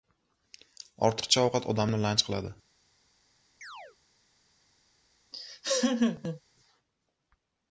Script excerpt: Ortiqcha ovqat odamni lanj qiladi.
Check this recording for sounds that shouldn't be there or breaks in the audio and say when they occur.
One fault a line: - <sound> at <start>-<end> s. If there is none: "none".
- chirp at 3.6-4.0 s
- laugh at 5.3-6.4 s